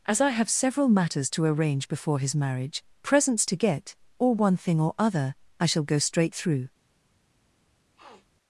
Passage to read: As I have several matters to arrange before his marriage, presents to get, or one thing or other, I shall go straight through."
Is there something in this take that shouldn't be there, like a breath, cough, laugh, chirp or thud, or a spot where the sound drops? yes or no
yes